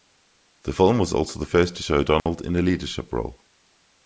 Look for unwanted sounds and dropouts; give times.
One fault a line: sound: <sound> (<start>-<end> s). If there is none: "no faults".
sound: dropout (2.2-2.3 s)